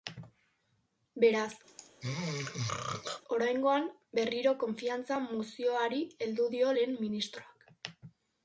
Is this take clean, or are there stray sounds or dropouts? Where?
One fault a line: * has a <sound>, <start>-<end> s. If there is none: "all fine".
* has a throat clearing, 1.7-3.2 s